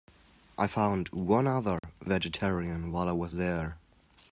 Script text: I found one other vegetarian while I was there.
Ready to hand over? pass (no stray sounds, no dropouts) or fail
fail